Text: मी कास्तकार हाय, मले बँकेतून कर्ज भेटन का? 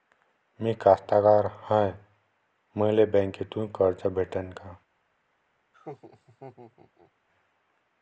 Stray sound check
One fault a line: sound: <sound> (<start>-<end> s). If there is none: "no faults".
sound: laugh (5.7-7.1 s)